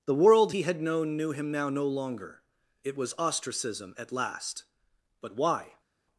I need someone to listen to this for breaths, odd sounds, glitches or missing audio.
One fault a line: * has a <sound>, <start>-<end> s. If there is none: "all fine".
all fine